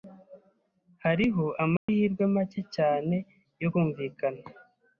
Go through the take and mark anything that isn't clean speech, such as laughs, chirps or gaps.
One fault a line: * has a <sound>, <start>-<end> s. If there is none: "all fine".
* has a dropout, 1.8-1.9 s